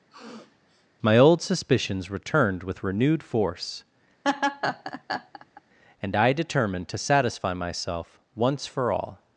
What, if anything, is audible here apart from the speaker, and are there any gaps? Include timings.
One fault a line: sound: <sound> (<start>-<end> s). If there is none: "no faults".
sound: sniff (0.1-0.9 s)
sound: laugh (4.2-5.6 s)